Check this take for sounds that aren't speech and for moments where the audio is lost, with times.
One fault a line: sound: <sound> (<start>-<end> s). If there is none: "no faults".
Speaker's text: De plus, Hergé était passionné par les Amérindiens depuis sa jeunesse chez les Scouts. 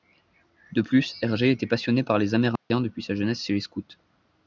sound: dropout (2.6-2.7 s)